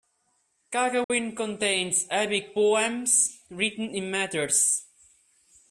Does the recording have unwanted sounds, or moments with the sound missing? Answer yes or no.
yes